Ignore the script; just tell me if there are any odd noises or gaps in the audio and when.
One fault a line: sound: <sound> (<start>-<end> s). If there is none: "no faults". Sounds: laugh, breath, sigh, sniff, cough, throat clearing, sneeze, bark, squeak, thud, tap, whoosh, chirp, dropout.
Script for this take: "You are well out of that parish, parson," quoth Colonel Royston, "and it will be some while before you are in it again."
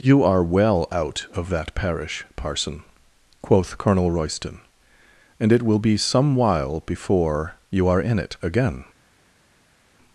no faults